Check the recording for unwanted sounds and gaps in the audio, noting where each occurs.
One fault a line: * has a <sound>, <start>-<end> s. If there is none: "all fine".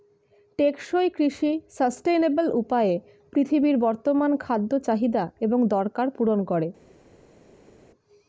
all fine